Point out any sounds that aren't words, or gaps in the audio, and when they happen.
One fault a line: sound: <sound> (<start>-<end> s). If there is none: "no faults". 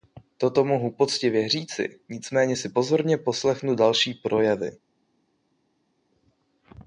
no faults